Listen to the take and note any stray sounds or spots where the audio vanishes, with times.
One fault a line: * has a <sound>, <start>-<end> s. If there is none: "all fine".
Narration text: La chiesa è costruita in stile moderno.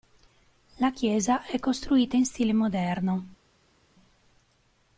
all fine